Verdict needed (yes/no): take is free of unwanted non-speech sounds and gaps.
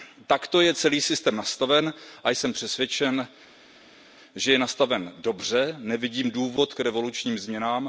yes